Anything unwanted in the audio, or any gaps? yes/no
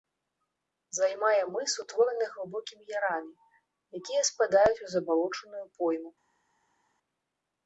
no